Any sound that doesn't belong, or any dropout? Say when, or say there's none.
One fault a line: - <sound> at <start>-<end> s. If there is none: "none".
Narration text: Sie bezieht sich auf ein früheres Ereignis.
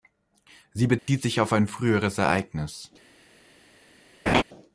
- dropout at 1.0-1.1 s
- laugh at 4.3-4.4 s